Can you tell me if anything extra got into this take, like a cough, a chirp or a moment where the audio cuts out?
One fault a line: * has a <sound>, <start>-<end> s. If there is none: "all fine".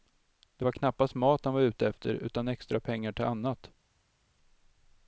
all fine